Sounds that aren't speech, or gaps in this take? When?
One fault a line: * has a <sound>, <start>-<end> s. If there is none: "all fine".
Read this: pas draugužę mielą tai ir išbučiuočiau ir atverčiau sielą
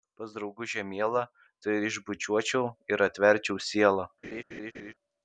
* has a laugh, 4.2-4.9 s